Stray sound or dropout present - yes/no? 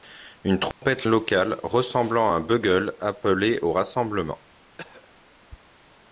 yes